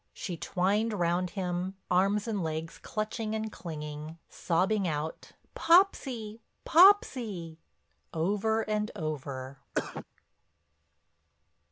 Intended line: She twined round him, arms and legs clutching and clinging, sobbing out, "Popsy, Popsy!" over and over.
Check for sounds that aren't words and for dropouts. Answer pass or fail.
fail